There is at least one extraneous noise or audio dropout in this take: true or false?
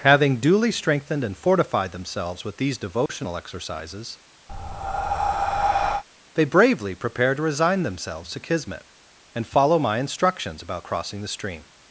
true